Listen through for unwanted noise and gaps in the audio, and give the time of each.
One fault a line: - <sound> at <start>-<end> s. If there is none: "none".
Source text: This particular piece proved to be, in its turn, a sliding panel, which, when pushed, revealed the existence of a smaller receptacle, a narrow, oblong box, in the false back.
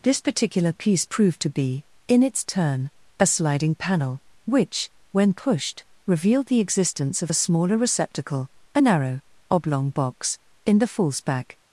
none